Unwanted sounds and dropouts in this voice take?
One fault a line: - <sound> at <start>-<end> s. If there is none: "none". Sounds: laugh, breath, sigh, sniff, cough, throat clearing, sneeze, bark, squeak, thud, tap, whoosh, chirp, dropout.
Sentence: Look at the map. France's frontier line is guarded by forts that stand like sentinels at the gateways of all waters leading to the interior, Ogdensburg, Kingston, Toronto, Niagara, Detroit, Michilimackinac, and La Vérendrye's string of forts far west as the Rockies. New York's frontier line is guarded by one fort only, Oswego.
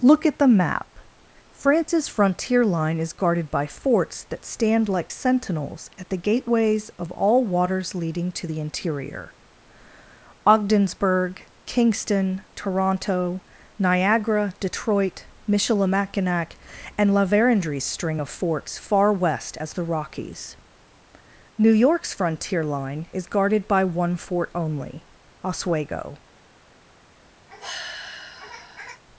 - sigh at 27.5-29.0 s